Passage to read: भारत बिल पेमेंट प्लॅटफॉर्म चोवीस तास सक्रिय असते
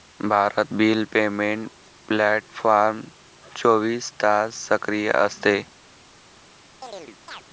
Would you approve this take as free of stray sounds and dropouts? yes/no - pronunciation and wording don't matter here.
no